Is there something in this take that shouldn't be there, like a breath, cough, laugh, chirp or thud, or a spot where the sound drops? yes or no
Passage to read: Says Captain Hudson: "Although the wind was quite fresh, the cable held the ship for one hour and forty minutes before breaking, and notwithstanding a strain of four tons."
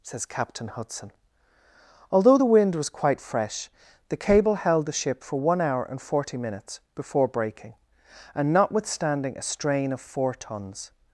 no